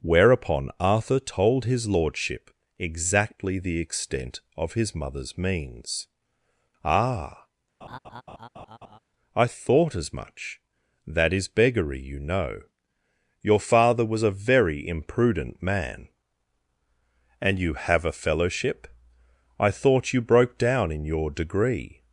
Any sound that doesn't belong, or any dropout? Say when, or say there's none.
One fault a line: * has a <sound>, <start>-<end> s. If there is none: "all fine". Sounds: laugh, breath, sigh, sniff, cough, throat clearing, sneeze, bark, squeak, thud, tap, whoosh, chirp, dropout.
* has a laugh, 7.8-9.0 s